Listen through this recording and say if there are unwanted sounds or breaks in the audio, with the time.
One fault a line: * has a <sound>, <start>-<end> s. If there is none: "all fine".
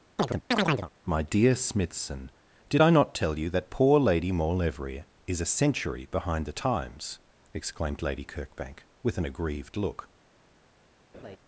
* has a chirp, 0.2-0.9 s
* has a laugh, 11.1-11.4 s